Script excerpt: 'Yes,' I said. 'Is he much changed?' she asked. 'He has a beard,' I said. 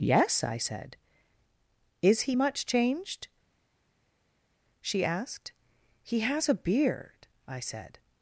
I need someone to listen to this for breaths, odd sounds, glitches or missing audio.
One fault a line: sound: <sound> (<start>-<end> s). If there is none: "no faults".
no faults